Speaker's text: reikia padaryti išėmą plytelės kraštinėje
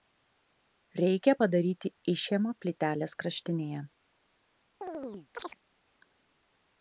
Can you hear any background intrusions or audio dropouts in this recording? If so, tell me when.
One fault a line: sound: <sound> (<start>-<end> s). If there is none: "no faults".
sound: chirp (4.8-5.6 s)